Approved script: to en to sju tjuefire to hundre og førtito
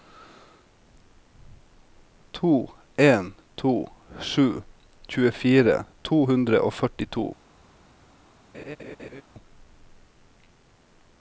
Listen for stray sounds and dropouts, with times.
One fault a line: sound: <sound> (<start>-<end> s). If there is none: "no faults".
sound: laugh (8.5-9.2 s)